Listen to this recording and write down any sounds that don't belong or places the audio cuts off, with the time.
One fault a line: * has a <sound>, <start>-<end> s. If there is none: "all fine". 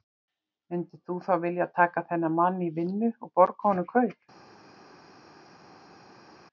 all fine